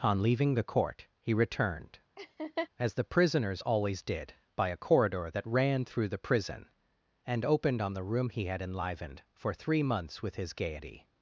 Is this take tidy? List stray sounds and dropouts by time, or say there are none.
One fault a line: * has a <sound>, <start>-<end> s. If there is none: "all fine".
* has a laugh, 2.2-2.7 s